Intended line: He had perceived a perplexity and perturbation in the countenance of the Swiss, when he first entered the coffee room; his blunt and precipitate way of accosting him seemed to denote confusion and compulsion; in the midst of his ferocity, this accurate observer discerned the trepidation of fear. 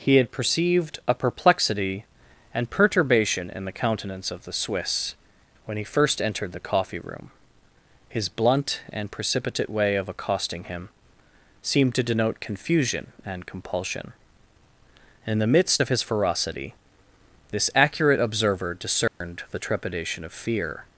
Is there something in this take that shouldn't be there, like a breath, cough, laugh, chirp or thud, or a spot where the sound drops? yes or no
yes